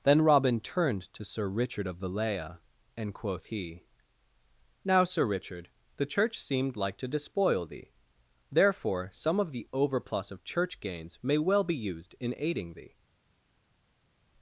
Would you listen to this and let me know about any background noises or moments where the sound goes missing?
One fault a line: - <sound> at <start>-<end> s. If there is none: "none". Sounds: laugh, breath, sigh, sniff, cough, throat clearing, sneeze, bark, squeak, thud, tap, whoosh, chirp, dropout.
none